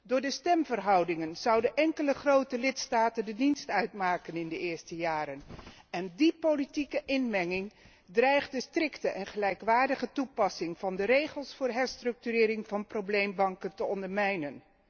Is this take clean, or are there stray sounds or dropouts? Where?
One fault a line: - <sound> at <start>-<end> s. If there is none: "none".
none